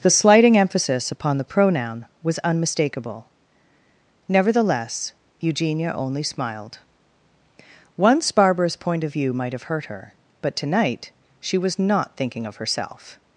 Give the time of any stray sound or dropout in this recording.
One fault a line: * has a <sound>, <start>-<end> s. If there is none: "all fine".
all fine